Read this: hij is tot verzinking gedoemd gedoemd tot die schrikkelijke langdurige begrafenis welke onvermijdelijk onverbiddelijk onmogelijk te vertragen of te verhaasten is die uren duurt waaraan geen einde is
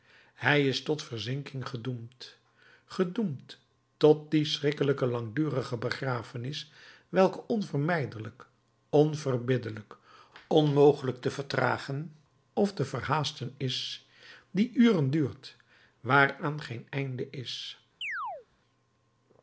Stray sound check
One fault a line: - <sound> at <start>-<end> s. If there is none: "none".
- chirp at 18.0-18.5 s